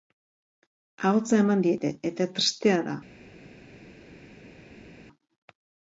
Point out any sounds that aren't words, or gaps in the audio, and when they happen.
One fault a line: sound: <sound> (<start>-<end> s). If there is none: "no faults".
no faults